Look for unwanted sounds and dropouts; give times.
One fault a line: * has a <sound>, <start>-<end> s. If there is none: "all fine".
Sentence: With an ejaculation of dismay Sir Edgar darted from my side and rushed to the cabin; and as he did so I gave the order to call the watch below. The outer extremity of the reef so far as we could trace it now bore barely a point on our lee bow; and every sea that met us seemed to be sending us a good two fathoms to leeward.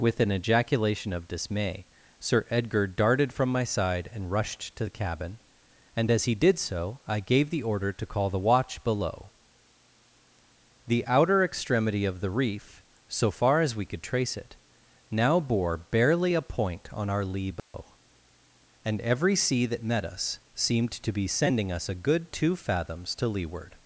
* has a dropout, 17.6-17.7 s